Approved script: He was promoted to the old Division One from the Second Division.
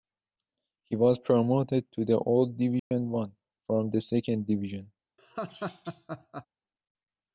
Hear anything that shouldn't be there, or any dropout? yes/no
yes